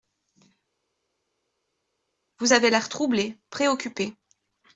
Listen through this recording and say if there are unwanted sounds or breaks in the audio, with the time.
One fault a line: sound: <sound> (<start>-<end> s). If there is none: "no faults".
no faults